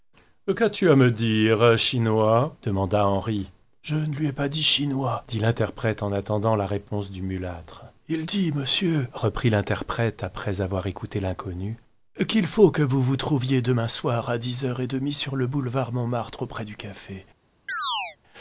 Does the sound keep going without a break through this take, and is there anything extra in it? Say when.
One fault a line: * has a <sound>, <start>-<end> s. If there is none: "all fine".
* has a chirp, 17.7-18.2 s